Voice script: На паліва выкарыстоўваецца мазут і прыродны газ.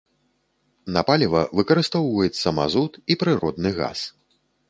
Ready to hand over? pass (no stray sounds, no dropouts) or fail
fail